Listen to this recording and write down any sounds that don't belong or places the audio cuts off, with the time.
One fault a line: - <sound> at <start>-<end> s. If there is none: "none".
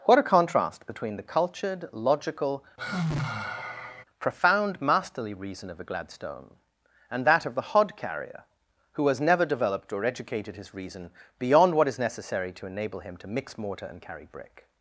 - sigh at 2.8-4.0 s